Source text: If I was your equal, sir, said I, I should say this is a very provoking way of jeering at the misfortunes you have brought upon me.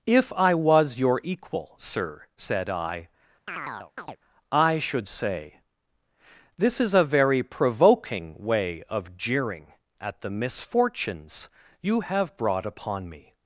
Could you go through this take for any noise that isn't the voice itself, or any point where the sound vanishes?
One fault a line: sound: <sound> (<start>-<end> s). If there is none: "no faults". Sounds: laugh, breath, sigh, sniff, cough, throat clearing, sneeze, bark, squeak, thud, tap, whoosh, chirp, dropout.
sound: chirp (3.5-4.2 s)